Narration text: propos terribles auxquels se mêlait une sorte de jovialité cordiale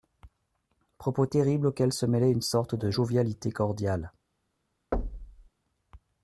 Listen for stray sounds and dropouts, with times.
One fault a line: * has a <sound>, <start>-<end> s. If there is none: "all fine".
* has a thud, 4.9-5.5 s